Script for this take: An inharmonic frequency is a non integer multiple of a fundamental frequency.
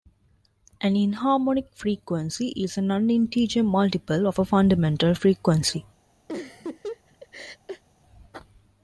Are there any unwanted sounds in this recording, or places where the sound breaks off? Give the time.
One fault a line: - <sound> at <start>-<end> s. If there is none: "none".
- laugh at 6.3-7.8 s